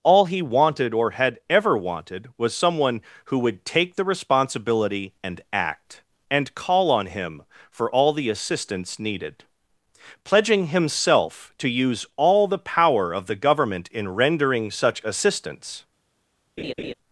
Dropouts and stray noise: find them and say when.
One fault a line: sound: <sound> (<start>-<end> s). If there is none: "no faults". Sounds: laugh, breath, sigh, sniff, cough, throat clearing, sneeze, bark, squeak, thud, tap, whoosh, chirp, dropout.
sound: laugh (16.6-16.9 s)